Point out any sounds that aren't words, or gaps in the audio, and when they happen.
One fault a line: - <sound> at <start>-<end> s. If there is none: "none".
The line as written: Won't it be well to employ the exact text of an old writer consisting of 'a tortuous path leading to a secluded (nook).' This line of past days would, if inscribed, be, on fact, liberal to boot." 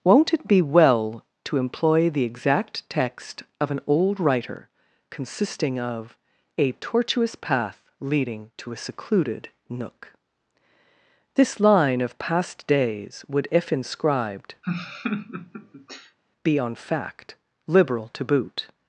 - laugh at 14.6-16.2 s